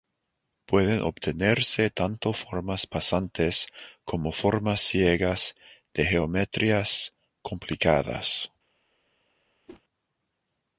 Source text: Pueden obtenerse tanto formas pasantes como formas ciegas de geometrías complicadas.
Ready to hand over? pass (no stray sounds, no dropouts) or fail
fail